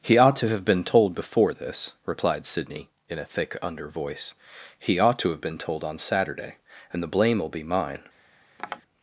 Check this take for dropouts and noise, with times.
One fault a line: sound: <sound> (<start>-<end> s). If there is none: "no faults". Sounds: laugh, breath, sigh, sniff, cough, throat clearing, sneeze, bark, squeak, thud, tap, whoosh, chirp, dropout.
sound: tap (8.6-8.8 s)